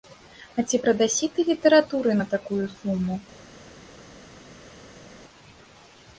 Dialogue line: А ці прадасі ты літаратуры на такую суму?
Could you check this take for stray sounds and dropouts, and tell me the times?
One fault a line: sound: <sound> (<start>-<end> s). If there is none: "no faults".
no faults